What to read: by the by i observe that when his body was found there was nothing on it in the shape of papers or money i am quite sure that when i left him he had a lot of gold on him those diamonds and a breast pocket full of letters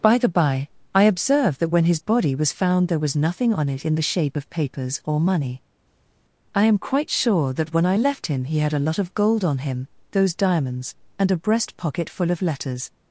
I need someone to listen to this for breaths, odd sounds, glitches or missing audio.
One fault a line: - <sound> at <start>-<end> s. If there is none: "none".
none